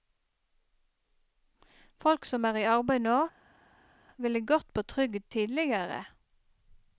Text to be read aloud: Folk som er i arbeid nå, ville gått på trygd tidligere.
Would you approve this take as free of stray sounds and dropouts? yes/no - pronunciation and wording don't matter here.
yes